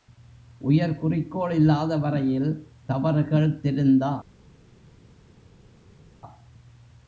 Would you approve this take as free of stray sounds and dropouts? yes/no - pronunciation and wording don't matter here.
yes